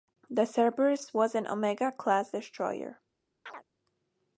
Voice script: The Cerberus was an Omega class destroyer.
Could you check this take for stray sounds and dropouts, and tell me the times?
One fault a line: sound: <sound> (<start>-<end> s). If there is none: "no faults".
sound: chirp (3.5-3.6 s)